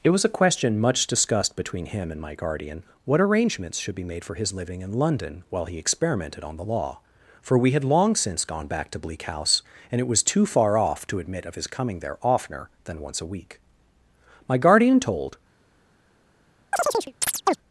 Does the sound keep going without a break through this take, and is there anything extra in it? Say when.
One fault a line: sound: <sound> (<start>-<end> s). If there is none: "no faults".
sound: chirp (16.7-17.6 s)